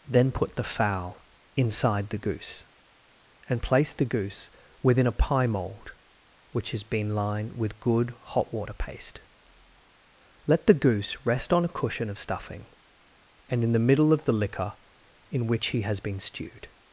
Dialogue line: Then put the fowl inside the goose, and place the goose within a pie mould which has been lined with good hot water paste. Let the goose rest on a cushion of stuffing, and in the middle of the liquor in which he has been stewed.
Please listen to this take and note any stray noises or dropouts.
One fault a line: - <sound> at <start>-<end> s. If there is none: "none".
none